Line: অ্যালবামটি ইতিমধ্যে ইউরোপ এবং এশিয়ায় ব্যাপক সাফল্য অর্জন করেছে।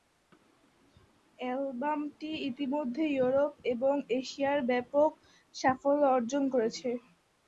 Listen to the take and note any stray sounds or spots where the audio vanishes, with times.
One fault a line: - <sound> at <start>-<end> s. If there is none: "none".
none